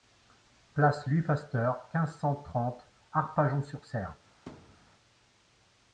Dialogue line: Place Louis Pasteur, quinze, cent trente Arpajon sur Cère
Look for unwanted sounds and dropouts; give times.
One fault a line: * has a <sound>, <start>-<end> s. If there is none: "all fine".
* has a thud, 4.5-4.9 s